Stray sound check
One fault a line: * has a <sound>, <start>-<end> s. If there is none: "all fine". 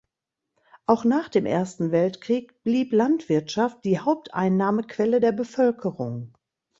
all fine